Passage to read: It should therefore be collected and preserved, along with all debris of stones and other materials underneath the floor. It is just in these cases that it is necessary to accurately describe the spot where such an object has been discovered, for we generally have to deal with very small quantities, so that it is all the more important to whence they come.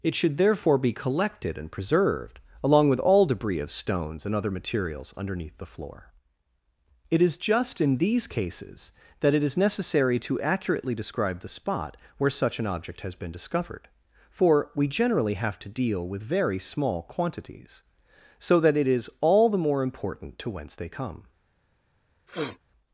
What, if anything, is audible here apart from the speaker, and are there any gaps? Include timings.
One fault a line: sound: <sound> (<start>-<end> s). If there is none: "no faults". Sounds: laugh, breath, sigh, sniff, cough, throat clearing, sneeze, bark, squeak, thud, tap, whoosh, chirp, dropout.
sound: sniff (22.3-22.6 s)